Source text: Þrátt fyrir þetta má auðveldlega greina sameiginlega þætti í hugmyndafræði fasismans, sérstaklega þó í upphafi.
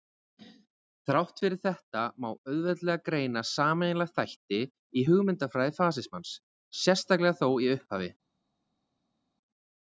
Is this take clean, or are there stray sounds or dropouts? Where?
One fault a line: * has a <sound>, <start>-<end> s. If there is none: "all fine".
all fine